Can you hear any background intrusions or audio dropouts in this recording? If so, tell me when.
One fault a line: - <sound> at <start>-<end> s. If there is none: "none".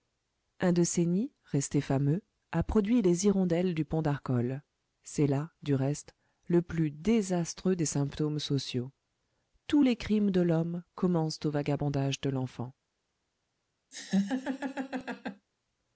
- laugh at 13.9-15.5 s